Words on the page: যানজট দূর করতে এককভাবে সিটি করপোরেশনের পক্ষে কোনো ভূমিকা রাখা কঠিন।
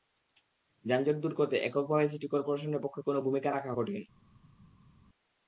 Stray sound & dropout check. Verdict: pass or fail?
pass